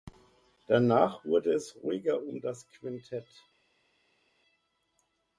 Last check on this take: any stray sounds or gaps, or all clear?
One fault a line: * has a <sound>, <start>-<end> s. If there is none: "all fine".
all fine